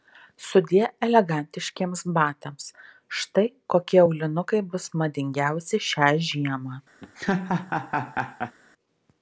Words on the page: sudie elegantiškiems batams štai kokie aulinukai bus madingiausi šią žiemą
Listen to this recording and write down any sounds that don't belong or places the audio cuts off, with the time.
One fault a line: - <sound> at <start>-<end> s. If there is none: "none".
- laugh at 7.0-8.6 s